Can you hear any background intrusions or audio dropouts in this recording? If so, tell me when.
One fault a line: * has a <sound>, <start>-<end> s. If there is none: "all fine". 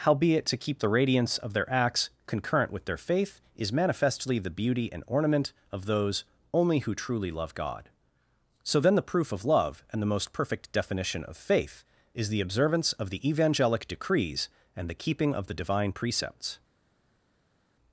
all fine